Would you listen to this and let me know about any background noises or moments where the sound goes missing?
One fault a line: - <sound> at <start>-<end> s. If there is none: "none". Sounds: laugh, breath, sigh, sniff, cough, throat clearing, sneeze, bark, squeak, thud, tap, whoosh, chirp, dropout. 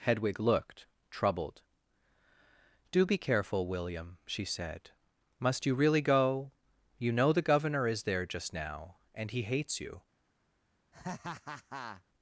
- laugh at 10.9-12.0 s